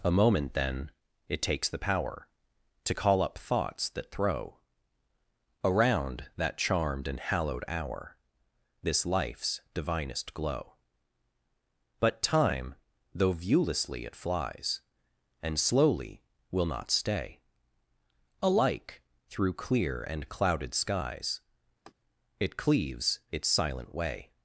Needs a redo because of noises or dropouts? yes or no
yes